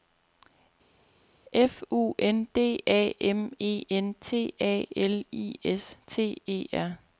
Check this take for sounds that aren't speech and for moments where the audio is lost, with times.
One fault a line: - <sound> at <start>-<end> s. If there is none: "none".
none